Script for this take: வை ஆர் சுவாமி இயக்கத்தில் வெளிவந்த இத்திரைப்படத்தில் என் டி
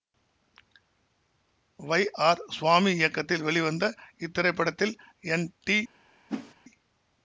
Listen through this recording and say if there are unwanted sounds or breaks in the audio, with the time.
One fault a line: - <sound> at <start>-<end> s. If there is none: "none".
- whoosh at 6.3-6.5 s